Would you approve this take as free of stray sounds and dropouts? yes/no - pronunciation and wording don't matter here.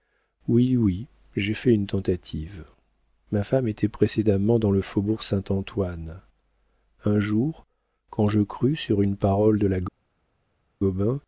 yes